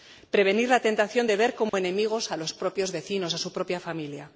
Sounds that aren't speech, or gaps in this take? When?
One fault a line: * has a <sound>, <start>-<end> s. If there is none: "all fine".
* has a dropout, 1.7-1.7 s